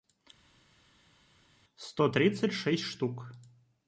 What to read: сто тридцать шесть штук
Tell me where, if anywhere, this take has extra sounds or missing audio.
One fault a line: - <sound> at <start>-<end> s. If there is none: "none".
none